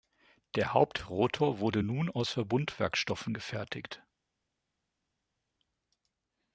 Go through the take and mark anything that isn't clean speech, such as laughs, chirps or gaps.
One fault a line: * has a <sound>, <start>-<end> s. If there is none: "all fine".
all fine